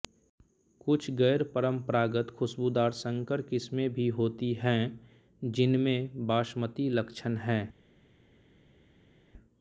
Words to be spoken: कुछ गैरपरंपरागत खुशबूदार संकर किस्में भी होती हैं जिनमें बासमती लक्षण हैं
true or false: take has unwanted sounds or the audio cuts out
false